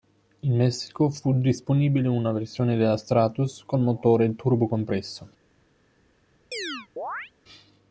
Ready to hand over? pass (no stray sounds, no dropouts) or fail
fail